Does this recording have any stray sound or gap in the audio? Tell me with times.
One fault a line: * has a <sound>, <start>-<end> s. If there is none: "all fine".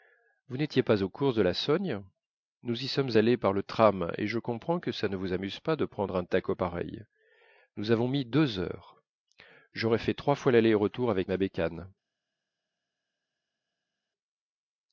all fine